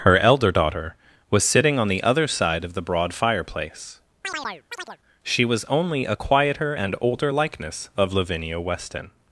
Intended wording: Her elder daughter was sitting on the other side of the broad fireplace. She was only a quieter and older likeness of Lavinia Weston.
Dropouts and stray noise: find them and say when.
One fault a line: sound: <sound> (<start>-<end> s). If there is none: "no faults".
sound: chirp (4.2-5.0 s)